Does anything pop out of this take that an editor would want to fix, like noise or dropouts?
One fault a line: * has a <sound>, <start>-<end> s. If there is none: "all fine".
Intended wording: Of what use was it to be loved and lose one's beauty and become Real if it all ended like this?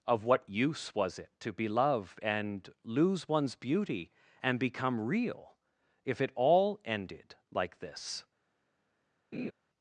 * has a laugh, 9.3-9.5 s